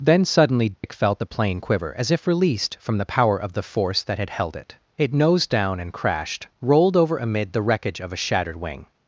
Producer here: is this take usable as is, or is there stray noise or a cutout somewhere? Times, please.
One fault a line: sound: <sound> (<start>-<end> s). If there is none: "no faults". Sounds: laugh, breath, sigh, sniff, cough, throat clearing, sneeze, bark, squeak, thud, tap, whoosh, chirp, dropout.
sound: dropout (0.7-0.8 s)